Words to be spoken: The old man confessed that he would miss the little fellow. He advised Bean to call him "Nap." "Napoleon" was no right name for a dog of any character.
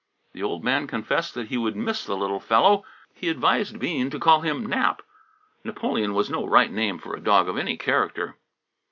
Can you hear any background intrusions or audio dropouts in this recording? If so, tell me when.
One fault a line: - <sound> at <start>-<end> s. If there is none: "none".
none